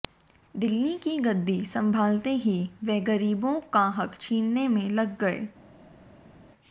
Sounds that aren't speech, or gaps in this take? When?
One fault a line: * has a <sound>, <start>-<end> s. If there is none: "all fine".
all fine